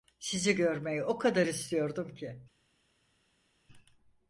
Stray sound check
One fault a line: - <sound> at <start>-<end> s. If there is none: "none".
none